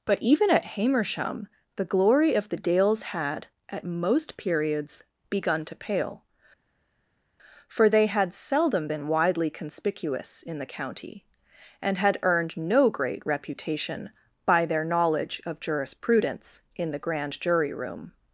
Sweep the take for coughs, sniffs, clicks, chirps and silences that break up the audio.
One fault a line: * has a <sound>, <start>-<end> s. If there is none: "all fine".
all fine